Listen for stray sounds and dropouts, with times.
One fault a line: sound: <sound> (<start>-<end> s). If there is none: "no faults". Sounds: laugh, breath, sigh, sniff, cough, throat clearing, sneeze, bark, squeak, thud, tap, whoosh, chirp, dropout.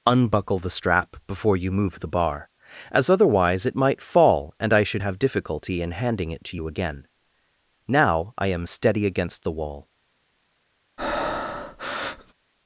sound: breath (11.0-12.3 s)